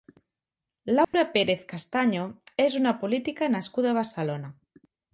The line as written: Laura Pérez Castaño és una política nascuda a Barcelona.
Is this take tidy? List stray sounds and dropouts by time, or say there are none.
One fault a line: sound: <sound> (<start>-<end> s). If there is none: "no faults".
sound: dropout (1.0-1.1 s)